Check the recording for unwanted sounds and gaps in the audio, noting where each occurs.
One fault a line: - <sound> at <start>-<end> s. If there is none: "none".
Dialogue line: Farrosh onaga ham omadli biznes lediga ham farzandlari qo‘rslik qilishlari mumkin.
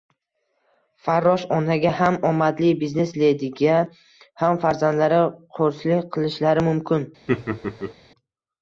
- laugh at 7.3-7.9 s